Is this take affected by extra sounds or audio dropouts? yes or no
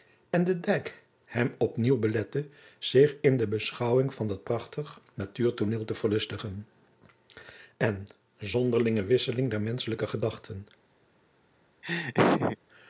yes